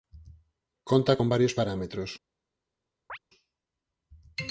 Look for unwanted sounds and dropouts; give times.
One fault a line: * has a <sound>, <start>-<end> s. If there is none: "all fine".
* has a chirp, 3.1-3.2 s